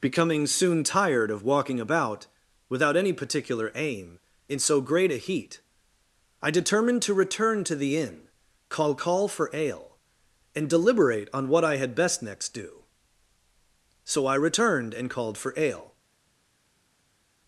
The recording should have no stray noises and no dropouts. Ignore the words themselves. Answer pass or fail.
pass